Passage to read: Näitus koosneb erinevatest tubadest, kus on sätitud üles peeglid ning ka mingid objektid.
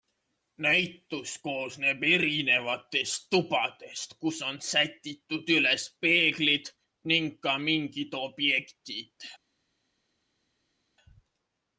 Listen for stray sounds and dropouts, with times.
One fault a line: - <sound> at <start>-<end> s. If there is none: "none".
none